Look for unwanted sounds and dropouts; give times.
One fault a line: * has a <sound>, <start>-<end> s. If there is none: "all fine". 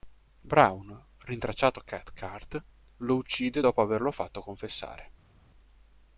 all fine